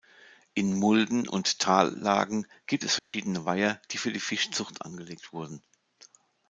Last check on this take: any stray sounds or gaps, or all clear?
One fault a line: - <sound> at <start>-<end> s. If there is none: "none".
- dropout at 3.0-3.1 s